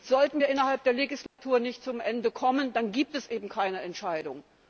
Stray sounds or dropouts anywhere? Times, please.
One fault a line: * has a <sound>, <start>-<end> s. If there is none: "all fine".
* has a dropout, 1.3-1.4 s